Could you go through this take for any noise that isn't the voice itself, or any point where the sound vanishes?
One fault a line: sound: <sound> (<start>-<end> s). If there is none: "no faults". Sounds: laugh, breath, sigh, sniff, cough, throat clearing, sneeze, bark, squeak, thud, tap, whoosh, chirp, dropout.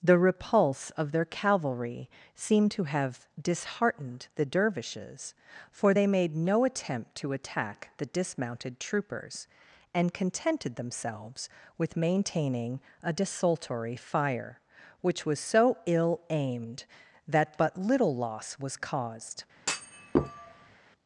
sound: thud (19.6-20.8 s)